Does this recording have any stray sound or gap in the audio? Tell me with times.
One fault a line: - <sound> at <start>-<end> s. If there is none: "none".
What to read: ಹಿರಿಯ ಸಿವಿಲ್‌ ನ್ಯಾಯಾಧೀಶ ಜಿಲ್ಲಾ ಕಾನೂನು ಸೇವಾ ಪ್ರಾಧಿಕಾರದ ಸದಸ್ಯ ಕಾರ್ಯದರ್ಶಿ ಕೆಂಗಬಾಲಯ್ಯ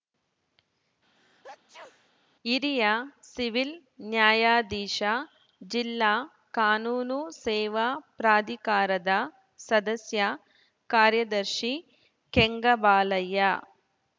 - sneeze at 1.2-2.1 s